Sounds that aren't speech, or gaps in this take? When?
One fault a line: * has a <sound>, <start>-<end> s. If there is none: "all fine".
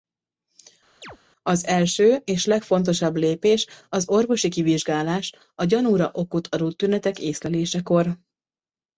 * has a chirp, 1.0-1.2 s